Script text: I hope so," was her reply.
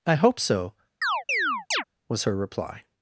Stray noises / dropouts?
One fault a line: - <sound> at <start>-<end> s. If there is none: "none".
- chirp at 1.0-1.8 s